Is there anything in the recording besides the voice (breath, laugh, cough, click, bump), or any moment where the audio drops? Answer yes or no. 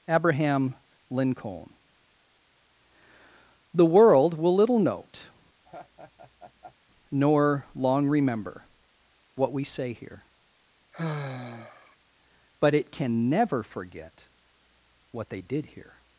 yes